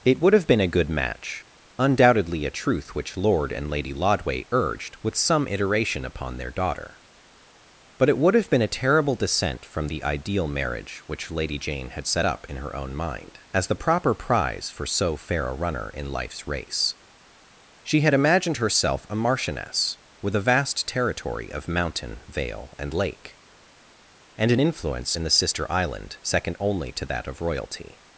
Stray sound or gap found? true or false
false